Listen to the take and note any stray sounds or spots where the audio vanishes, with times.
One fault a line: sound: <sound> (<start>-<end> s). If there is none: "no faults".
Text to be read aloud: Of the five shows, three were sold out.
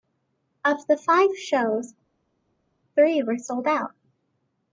no faults